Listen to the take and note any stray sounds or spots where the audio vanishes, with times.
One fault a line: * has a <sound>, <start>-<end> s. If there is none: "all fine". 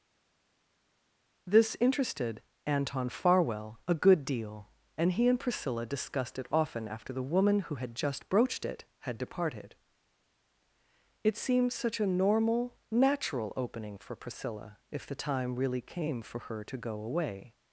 all fine